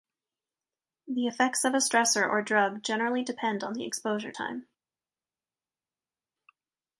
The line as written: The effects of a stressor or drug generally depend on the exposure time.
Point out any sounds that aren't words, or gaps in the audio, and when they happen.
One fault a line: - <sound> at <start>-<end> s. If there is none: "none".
none